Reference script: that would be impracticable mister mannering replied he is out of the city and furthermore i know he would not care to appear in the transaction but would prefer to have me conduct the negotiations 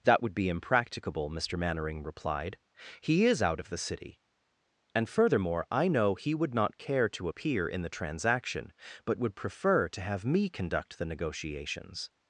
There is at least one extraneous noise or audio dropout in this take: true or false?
false